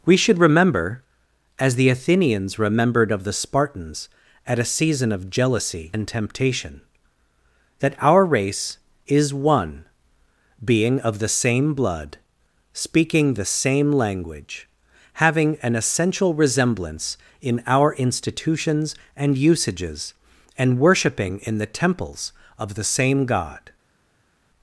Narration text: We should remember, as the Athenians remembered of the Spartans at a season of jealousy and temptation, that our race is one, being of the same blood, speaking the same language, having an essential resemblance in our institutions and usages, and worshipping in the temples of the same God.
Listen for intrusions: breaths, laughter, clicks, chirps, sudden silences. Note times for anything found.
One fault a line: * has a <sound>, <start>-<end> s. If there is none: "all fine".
all fine